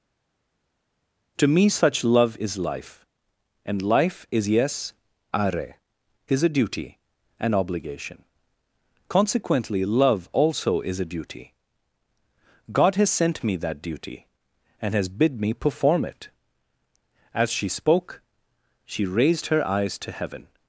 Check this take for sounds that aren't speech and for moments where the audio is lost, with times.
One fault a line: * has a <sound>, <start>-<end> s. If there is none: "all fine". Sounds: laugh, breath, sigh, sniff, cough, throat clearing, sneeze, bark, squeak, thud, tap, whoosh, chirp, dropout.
all fine